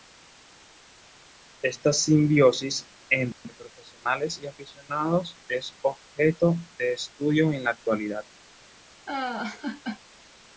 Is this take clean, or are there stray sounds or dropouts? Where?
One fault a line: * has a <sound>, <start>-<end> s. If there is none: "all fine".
* has a laugh, 9.1-10.0 s